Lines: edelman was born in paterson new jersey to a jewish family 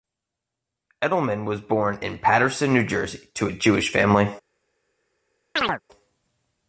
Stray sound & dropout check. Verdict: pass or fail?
fail